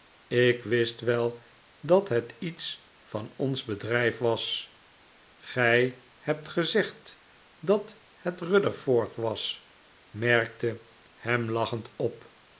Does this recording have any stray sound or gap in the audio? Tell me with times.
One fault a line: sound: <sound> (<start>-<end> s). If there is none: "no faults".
no faults